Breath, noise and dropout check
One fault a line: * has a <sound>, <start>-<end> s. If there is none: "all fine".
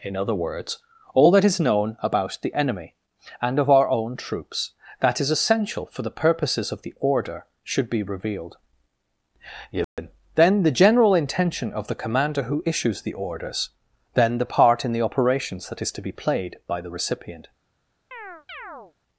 * has a dropout, 9.8-10.0 s
* has a chirp, 18.1-18.9 s